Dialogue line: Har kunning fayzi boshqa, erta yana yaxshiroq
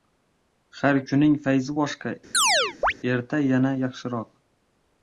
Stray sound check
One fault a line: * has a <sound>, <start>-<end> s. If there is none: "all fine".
* has a chirp, 2.3-2.9 s